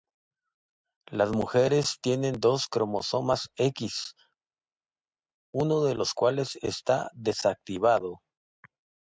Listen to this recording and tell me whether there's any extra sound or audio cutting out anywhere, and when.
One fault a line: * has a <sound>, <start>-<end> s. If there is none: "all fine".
all fine